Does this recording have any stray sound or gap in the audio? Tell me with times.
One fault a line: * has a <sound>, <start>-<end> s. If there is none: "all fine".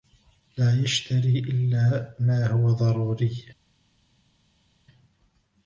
all fine